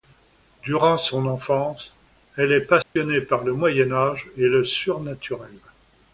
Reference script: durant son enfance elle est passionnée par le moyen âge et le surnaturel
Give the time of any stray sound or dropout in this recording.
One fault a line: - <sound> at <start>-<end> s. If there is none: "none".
- dropout at 2.8-3.0 s